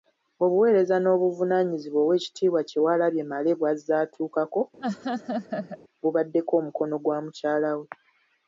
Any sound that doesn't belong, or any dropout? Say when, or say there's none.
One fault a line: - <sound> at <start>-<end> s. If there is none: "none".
- laugh at 4.8-5.8 s